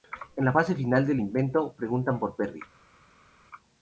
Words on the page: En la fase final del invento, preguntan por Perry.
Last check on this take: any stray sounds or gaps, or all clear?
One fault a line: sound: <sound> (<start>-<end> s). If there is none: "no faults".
no faults